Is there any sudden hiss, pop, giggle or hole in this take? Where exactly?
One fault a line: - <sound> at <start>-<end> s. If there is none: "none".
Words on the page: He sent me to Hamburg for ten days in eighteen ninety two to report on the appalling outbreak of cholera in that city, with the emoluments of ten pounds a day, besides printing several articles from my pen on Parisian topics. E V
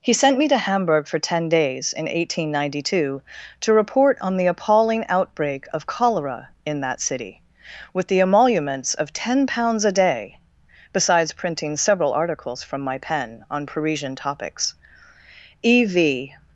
none